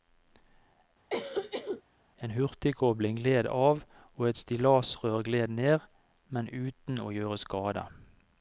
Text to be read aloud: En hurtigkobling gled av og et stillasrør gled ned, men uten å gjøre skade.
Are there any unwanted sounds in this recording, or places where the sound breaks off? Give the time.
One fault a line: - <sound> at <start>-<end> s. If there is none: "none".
- cough at 1.1-1.8 s